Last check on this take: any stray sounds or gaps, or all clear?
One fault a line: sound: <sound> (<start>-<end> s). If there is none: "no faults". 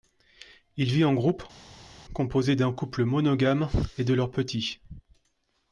no faults